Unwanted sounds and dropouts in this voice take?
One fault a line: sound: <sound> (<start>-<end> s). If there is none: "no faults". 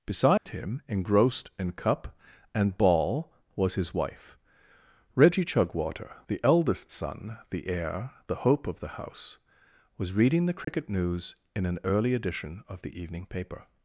sound: dropout (0.4-0.5 s)
sound: dropout (10.6-10.7 s)